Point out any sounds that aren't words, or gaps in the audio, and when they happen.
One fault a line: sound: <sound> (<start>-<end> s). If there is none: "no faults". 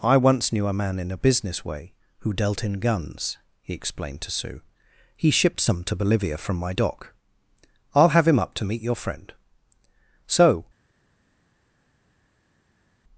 no faults